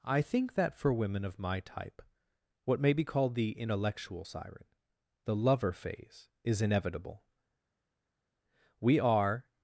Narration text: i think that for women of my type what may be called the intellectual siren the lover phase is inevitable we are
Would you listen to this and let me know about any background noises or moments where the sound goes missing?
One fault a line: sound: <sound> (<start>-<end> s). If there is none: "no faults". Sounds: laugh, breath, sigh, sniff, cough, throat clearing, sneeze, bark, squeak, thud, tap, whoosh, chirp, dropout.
no faults